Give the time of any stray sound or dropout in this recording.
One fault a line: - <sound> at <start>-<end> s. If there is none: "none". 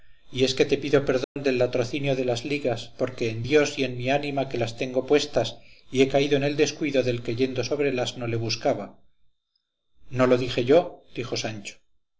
- dropout at 1.2-1.4 s